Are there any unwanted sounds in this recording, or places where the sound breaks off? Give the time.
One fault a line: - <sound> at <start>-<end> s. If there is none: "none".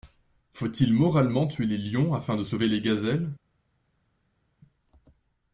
none